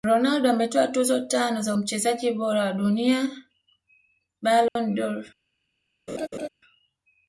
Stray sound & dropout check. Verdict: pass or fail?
fail